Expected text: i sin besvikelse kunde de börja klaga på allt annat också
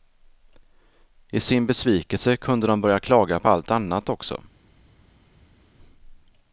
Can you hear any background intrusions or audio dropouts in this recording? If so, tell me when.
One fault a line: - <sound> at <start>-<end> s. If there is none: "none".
none